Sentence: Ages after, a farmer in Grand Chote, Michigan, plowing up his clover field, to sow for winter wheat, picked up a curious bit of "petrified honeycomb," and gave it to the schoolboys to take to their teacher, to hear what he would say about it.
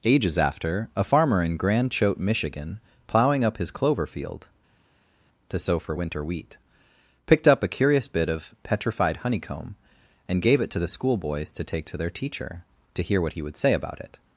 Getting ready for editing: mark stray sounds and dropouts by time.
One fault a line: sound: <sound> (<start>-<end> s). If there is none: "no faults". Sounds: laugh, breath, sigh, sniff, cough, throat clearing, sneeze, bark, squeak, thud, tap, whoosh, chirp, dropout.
no faults